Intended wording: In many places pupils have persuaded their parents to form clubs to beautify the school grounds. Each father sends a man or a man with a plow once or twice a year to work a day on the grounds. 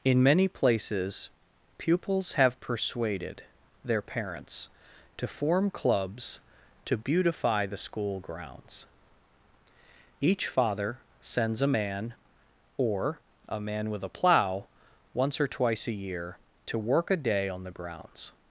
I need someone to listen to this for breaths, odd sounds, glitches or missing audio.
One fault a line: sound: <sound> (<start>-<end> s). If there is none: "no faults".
no faults